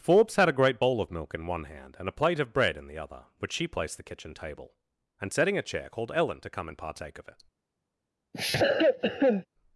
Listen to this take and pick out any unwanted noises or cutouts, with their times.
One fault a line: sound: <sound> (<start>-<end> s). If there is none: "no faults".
sound: cough (8.3-9.5 s)